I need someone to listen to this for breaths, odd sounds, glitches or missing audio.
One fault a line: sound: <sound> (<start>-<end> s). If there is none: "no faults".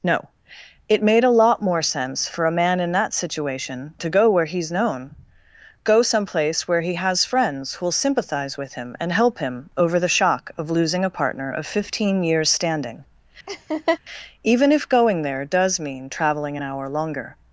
sound: laugh (13.5-14.0 s)